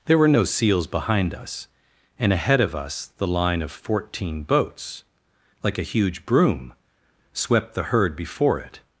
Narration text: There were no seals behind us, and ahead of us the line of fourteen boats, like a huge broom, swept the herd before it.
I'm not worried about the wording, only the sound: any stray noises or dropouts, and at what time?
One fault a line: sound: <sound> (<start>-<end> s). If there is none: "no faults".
no faults